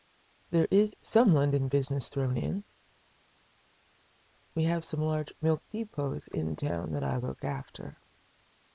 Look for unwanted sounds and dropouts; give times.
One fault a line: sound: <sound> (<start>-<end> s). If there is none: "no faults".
no faults